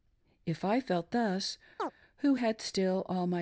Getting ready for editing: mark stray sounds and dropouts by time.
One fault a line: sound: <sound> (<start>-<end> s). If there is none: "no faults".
sound: chirp (1.8-1.9 s)